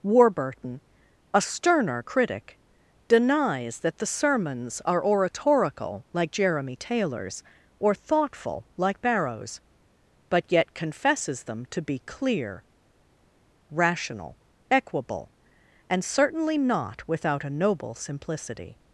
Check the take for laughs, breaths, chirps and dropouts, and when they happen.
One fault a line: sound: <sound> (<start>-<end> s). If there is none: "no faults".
no faults